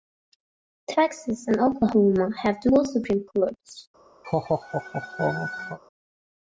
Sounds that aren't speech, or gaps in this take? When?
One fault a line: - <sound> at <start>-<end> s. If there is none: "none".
- laugh at 4.2-5.8 s